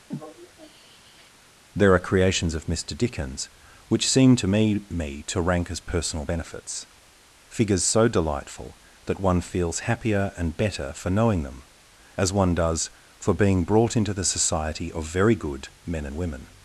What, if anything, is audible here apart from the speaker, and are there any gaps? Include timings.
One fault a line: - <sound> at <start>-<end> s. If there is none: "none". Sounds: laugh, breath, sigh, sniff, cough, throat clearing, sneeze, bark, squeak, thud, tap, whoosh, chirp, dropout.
- sigh at 0.1-1.3 s